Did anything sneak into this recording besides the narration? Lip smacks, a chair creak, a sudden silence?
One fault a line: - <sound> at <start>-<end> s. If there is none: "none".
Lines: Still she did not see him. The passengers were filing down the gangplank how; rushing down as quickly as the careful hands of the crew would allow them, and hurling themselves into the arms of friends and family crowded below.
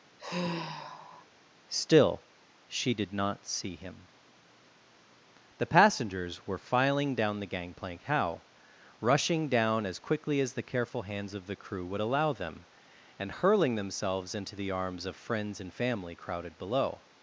- sigh at 0.2-1.3 s